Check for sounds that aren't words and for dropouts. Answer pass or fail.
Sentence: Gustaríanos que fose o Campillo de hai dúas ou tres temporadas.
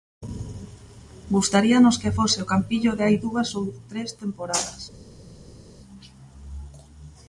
pass